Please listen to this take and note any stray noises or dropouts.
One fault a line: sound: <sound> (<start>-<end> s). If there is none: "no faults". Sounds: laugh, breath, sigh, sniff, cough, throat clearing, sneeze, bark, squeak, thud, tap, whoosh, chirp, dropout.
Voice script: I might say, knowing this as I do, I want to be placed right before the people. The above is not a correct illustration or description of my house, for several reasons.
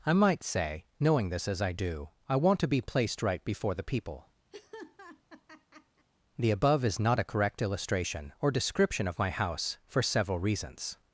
sound: laugh (4.5-6.1 s)